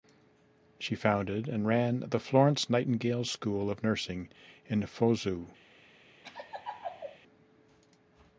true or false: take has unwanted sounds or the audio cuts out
true